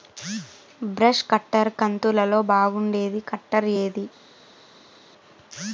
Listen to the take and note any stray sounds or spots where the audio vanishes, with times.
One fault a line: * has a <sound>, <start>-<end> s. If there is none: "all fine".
all fine